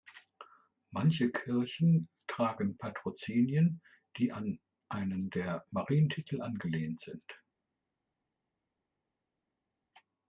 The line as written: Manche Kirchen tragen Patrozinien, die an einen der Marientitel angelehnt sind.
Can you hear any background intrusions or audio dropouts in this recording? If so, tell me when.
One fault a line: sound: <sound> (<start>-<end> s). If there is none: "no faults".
no faults